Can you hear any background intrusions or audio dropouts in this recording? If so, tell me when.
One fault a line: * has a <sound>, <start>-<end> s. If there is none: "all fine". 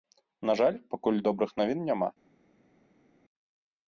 all fine